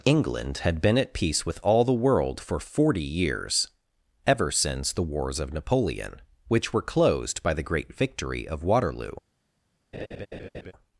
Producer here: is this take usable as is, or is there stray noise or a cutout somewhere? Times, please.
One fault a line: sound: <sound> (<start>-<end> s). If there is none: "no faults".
sound: laugh (9.9-10.7 s)